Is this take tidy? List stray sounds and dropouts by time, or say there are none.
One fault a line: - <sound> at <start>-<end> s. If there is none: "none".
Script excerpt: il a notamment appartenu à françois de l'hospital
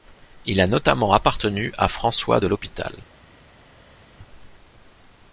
none